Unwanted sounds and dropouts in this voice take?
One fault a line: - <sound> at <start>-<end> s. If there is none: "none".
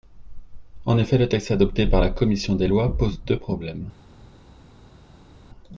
none